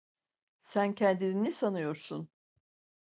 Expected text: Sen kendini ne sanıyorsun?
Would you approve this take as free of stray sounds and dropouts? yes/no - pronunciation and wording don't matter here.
yes